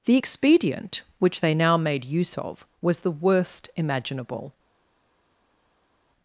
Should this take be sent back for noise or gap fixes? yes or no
no